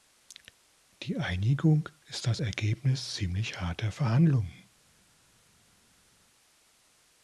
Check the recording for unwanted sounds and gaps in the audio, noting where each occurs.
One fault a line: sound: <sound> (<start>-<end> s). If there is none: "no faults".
no faults